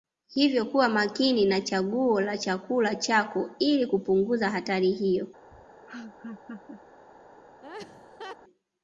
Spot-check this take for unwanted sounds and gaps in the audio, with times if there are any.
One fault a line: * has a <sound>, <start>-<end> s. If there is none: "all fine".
* has a laugh, 5.5-6.8 s
* has a laugh, 7.6-8.4 s